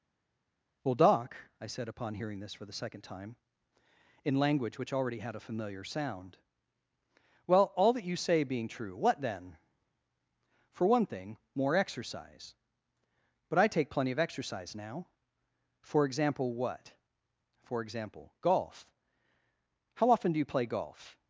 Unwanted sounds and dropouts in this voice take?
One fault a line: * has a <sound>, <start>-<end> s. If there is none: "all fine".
all fine